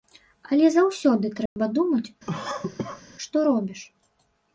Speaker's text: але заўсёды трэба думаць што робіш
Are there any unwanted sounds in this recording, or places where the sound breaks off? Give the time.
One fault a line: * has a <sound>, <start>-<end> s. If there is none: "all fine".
* has a dropout, 1.5-1.6 s
* has a cough, 2.3-3.0 s